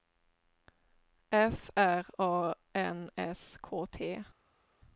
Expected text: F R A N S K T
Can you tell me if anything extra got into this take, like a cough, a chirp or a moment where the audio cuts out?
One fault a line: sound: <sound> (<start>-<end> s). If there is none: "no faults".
no faults